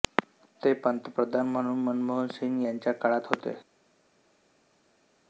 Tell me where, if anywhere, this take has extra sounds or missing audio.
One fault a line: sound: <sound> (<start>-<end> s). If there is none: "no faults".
no faults